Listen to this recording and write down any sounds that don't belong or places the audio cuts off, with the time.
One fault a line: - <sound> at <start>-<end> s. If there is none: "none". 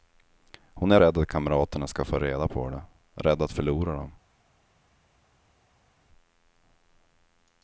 none